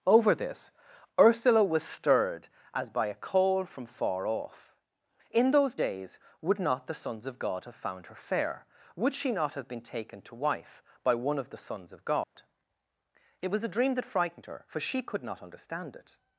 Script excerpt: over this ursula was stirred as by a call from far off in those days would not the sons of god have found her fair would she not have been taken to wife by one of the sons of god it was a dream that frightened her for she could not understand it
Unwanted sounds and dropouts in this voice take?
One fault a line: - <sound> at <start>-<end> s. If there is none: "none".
- dropout at 12.2-12.4 s